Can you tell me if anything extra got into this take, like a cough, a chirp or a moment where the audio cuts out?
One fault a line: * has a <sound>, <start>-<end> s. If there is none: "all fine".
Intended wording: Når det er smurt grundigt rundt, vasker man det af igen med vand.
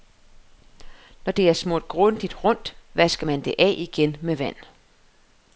all fine